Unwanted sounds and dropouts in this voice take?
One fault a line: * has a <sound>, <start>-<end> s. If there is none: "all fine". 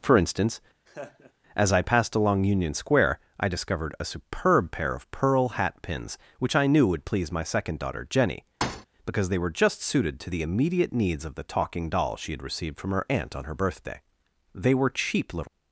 * has a laugh, 0.9-1.3 s
* has a thud, 8.6-8.9 s